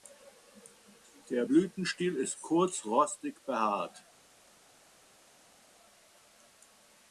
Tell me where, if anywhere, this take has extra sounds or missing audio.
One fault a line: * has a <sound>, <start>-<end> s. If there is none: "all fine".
all fine